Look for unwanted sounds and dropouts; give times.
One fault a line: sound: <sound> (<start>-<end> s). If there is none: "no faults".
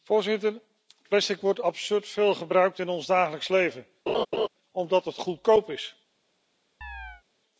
sound: laugh (4.1-4.5 s)
sound: chirp (6.8-7.2 s)